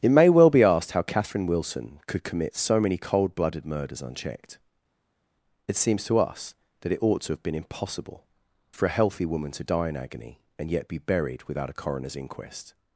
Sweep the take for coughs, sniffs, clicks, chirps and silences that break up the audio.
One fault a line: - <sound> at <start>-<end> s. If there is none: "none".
none